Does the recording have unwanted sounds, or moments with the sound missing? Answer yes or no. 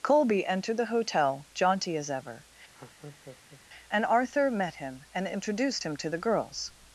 yes